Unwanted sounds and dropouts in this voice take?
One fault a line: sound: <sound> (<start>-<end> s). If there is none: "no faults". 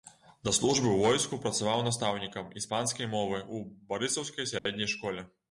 sound: dropout (4.6-4.7 s)